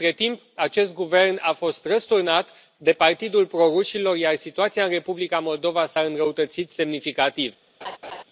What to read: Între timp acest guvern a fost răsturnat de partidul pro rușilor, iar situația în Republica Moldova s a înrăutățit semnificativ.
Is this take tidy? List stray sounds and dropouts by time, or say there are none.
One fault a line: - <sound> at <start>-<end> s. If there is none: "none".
- laugh at 7.8-8.2 s